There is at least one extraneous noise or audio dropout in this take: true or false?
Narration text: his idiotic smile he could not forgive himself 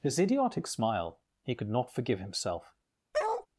true